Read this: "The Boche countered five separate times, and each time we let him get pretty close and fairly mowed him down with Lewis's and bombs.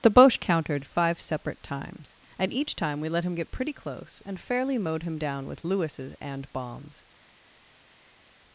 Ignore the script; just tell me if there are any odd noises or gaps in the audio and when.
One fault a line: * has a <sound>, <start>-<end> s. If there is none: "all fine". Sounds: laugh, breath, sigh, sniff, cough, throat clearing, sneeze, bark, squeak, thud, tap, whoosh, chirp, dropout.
all fine